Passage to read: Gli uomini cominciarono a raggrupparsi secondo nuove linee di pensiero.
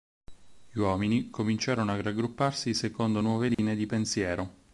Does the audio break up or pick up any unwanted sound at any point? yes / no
yes